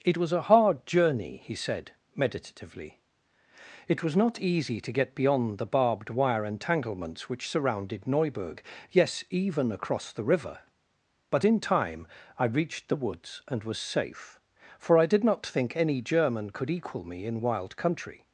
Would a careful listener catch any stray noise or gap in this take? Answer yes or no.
no